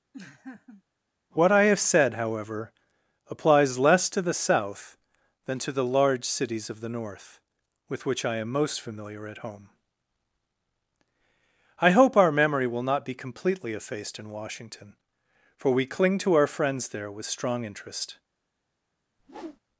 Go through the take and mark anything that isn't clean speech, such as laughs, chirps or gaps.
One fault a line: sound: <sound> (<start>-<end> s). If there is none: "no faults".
sound: laugh (0.1-0.8 s)
sound: whoosh (19.2-19.6 s)